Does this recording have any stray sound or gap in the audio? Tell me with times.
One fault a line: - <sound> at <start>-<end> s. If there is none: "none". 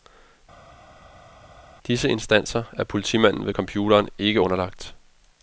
none